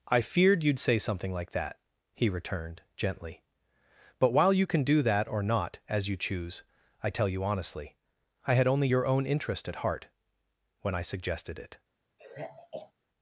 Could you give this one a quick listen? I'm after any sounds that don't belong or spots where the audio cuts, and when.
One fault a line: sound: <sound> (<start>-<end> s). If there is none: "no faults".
sound: sigh (12.2-12.9 s)